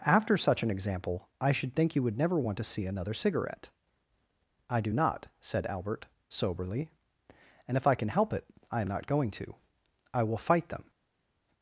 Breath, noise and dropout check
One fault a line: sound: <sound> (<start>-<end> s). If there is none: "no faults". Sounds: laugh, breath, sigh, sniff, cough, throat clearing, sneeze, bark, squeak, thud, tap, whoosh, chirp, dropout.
no faults